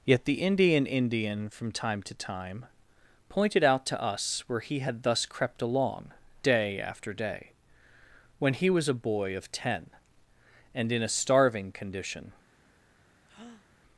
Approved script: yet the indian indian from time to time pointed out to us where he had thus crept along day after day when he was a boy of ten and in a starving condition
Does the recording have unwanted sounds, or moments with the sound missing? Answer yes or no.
yes